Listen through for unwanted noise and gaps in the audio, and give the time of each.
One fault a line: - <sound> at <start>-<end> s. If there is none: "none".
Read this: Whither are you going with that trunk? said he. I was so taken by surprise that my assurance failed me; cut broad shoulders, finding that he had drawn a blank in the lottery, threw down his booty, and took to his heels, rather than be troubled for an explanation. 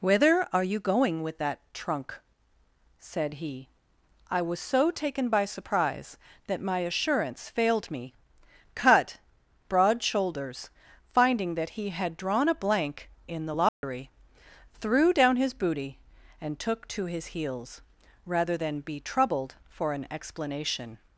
- dropout at 13.7-13.8 s